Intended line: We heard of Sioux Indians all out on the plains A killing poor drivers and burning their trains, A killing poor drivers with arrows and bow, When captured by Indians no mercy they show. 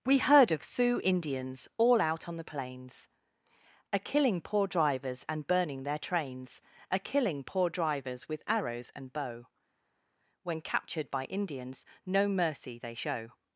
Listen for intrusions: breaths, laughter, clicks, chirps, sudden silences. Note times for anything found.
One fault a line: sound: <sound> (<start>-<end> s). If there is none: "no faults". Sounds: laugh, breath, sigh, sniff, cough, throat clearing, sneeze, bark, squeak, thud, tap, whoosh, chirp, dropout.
no faults